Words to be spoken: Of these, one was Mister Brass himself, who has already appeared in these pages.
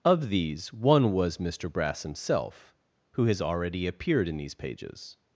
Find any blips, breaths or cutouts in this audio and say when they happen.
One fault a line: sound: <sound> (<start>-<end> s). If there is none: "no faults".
no faults